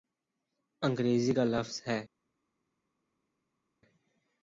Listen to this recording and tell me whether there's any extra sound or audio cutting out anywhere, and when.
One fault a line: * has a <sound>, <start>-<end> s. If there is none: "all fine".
all fine